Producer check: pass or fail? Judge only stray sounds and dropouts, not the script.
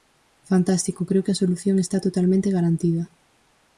pass